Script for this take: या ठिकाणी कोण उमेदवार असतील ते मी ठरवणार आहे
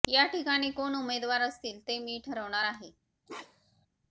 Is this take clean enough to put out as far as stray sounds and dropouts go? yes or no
no